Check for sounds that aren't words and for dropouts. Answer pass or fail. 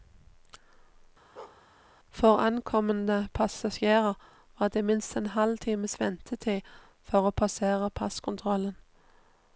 fail